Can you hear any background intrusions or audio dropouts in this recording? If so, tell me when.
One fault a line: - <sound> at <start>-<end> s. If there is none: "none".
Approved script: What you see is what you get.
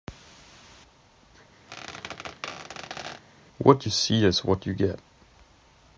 - squeak at 1.7-3.2 s